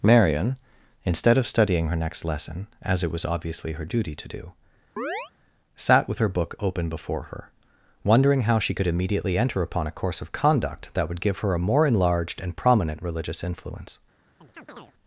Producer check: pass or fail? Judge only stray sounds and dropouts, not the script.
fail